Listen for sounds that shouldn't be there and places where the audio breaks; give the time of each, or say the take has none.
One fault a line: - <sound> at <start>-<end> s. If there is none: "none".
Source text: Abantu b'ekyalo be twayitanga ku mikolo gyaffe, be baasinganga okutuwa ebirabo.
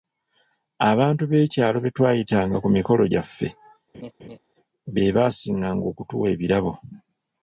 - laugh at 3.9-4.4 s